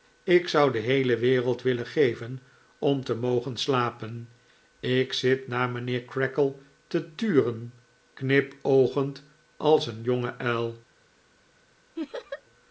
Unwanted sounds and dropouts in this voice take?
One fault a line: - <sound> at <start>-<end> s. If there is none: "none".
- laugh at 12.0-12.4 s